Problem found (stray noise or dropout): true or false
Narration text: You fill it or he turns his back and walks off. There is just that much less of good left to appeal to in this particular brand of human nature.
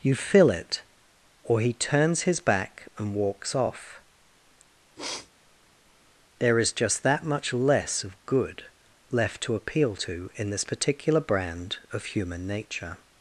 true